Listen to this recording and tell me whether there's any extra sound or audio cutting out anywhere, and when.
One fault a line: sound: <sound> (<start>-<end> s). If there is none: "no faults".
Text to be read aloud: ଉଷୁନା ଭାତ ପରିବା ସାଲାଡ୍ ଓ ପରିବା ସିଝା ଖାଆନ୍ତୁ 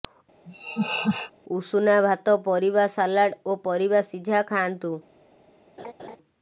sound: laugh (0.5-1.3 s)
sound: laugh (5.8-6.2 s)